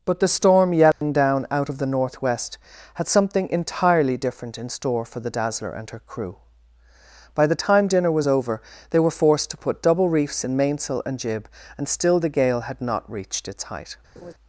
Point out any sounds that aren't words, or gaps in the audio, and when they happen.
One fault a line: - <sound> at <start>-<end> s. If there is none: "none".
- dropout at 0.9-1.0 s
- laugh at 14.2-14.3 s